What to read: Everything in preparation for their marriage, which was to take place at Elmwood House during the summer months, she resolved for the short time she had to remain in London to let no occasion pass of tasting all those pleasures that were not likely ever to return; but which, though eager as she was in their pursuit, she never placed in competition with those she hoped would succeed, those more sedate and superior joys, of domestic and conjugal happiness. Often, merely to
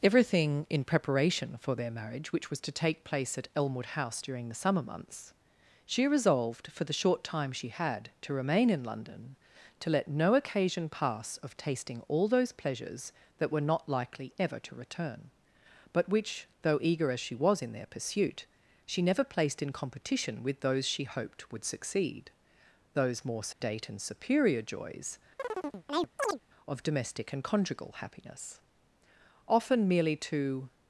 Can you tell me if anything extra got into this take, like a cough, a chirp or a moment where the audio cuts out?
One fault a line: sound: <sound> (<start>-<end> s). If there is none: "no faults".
sound: dropout (23.5-23.6 s)
sound: chirp (25.4-26.4 s)